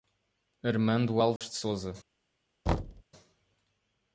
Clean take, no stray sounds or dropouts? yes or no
no